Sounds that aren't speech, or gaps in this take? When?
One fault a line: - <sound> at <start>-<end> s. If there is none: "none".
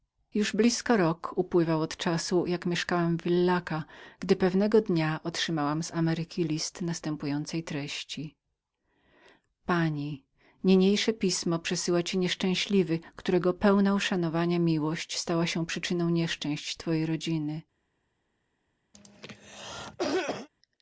- cough at 18.9-20.5 s